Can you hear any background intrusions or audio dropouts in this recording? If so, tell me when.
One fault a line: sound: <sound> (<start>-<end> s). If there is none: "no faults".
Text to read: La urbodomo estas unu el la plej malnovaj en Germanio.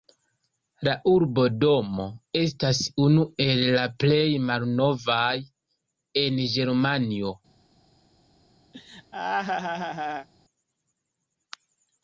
sound: laugh (8.7-10.3 s)